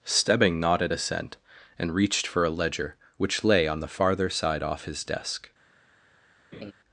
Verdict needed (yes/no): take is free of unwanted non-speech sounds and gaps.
no